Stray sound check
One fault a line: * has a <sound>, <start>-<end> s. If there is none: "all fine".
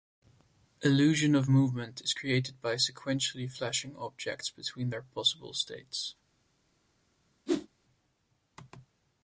* has a whoosh, 7.5-7.7 s